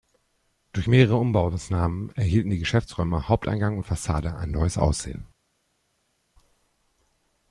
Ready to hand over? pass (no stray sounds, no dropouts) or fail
pass